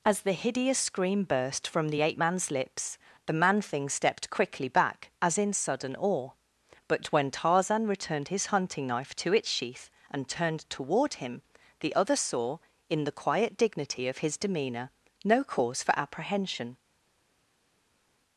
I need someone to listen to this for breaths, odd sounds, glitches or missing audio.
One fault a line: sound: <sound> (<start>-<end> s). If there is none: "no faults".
no faults